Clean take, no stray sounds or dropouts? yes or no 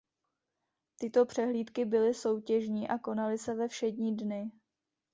yes